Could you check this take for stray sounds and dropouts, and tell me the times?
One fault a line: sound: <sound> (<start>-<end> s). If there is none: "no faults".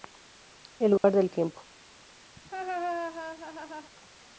sound: dropout (1.0-1.0 s)
sound: laugh (2.4-3.9 s)